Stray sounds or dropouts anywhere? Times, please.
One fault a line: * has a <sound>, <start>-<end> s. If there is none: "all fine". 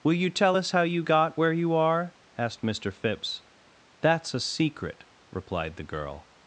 all fine